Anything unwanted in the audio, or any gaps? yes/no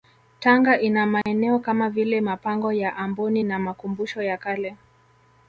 yes